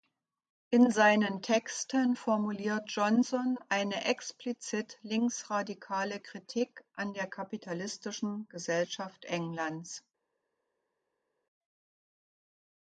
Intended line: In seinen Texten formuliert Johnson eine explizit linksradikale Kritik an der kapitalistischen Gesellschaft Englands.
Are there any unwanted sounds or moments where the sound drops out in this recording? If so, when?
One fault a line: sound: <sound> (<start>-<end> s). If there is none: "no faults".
no faults